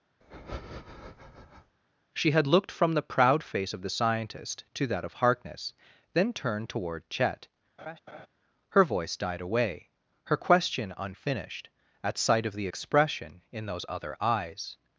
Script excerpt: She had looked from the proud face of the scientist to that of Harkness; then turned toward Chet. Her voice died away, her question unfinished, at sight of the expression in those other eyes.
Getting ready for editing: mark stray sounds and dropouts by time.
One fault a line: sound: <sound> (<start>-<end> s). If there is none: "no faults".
sound: breath (0.2-1.8 s)
sound: laugh (7.8-8.3 s)